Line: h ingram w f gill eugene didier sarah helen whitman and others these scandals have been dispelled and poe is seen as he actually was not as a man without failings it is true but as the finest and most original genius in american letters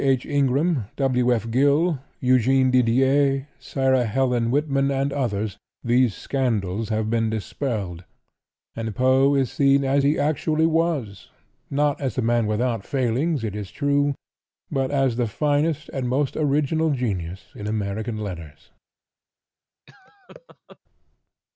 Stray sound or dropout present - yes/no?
yes